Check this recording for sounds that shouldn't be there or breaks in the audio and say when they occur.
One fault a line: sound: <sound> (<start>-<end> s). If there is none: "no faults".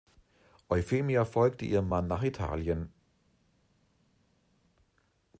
no faults